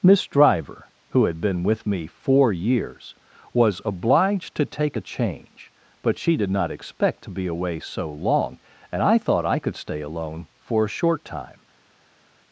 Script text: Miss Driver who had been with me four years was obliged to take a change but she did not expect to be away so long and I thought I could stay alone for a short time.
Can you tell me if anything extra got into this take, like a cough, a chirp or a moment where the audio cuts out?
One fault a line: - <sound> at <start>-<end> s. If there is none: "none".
none